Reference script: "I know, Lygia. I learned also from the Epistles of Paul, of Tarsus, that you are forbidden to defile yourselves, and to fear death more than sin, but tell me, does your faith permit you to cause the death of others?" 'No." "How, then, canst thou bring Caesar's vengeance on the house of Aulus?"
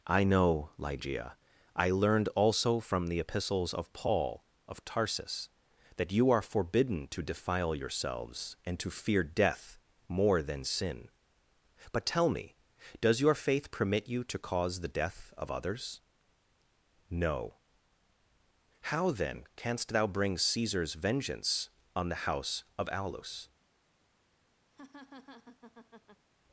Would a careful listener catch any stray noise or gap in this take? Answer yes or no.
yes